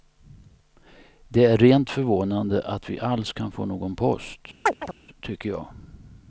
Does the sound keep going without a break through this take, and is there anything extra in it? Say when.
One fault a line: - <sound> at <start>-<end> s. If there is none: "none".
- chirp at 4.7-4.9 s